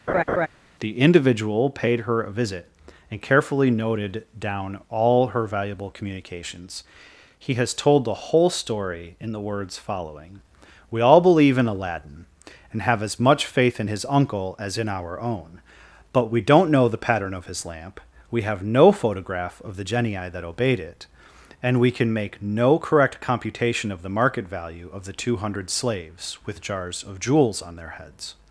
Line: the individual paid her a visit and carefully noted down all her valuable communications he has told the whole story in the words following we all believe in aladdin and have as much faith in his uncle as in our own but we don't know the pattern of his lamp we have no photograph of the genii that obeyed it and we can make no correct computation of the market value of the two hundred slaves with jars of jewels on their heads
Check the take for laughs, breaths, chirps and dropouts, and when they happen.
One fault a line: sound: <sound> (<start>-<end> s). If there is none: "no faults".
sound: laugh (0.1-0.5 s)